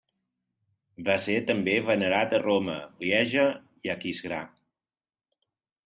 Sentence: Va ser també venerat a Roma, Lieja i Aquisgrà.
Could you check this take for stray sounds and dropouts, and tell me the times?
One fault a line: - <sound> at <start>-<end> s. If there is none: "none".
none